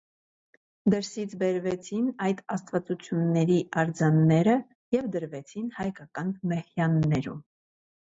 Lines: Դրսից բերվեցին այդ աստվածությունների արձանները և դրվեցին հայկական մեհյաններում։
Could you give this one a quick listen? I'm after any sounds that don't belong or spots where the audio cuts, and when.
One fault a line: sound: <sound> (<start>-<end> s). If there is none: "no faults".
no faults